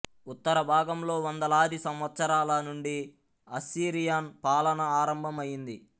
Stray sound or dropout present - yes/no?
no